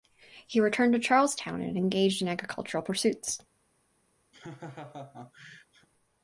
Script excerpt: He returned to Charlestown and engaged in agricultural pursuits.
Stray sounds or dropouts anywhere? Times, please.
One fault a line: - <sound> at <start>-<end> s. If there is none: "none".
- laugh at 4.3-5.9 s